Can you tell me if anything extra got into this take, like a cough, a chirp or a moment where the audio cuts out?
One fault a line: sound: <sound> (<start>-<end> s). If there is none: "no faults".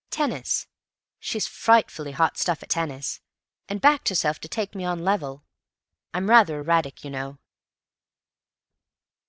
no faults